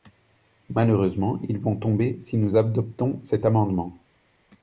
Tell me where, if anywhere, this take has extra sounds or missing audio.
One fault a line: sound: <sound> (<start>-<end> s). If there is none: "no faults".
no faults